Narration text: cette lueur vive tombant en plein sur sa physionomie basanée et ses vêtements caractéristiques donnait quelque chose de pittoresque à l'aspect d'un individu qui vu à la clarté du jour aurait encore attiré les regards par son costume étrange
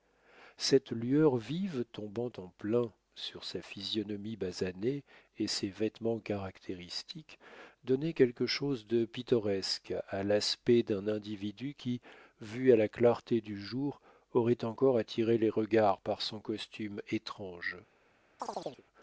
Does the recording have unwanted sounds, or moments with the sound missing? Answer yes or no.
yes